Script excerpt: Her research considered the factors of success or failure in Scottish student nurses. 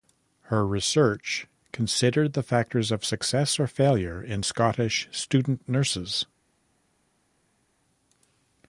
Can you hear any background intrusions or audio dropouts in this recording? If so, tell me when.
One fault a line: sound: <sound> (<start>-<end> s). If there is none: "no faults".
no faults